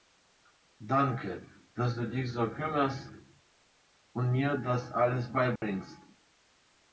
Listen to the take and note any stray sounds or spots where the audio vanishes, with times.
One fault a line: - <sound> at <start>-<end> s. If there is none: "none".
- dropout at 5.6-5.6 s